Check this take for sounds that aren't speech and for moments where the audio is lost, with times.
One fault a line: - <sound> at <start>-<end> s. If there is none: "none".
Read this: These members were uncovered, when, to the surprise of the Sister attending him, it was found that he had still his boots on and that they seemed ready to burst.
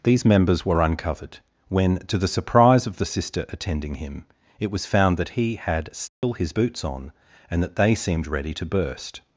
- dropout at 6.1-6.2 s